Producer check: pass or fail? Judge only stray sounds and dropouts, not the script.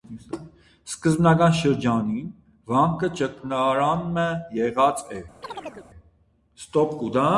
fail